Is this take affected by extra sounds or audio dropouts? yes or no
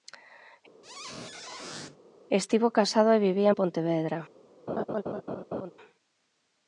yes